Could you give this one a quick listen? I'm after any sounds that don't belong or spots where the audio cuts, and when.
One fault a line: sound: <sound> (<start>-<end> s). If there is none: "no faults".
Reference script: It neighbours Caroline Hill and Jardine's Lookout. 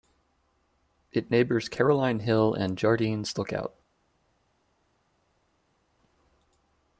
no faults